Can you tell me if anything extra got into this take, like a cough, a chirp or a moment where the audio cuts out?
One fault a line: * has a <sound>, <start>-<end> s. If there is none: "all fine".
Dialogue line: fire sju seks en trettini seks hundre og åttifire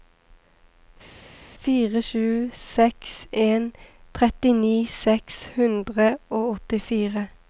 all fine